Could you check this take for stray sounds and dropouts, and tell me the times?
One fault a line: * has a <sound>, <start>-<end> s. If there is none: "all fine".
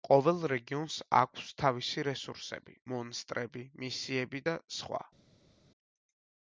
all fine